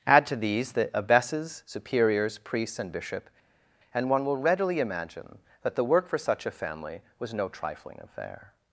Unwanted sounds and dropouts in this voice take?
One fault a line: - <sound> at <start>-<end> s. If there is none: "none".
none